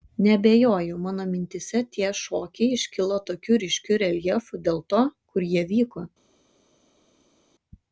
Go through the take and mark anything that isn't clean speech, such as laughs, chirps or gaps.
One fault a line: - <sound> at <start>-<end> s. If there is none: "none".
none